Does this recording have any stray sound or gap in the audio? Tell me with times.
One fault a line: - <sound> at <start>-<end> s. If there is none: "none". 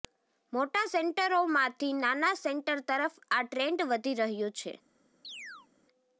- chirp at 5.2-5.7 s